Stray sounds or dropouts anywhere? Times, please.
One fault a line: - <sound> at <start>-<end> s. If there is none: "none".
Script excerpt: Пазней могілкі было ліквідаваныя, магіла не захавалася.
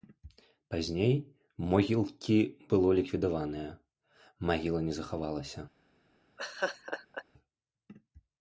- laugh at 6.4-7.2 s